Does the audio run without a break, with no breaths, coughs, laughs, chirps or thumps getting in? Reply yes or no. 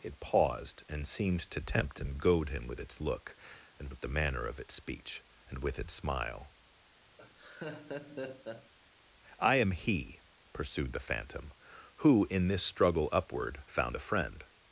no